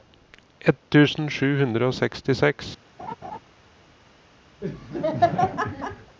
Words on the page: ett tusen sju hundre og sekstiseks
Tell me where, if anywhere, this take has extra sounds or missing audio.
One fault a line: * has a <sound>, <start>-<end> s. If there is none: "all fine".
* has a laugh, 3.0-3.4 s
* has a laugh, 4.6-6.2 s